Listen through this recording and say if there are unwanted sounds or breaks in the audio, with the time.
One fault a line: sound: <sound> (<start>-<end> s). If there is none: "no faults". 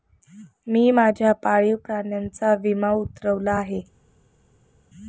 no faults